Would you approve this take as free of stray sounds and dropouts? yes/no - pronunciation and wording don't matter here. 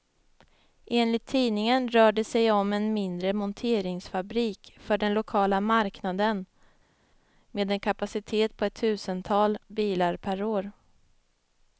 yes